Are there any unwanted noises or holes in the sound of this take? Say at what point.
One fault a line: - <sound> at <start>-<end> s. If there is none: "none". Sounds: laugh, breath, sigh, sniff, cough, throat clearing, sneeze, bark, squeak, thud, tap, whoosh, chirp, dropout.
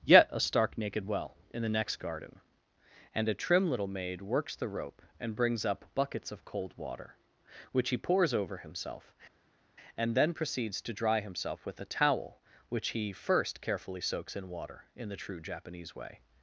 none